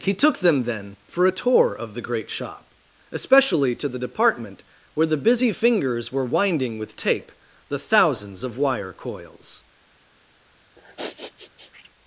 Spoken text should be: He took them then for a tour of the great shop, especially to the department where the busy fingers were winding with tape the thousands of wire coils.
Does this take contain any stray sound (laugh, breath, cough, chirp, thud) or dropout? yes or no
yes